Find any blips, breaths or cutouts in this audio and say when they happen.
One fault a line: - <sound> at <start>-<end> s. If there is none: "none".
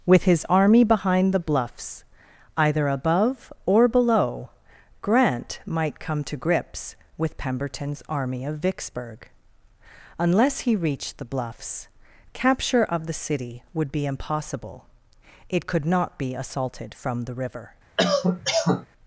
- cough at 18.0-18.9 s